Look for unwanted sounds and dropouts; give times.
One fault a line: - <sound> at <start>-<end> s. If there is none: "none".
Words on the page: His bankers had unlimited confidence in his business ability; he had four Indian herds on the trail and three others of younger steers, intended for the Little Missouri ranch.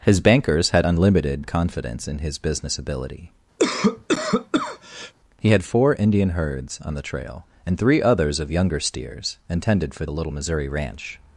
- cough at 3.6-5.1 s